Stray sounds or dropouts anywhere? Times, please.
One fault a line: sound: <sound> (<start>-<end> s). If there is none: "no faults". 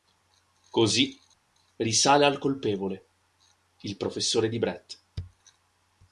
no faults